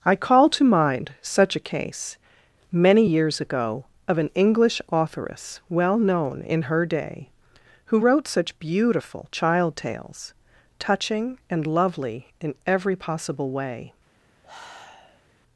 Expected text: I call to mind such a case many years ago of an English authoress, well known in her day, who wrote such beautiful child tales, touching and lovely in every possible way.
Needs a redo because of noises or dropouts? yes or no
yes